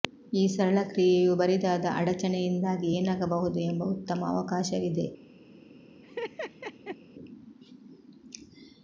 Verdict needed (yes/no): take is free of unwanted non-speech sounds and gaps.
no